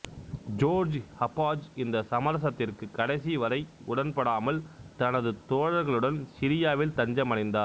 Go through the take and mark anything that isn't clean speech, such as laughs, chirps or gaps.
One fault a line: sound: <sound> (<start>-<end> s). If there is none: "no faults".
no faults